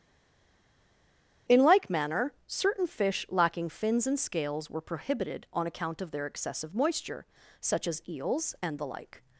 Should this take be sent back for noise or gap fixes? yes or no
no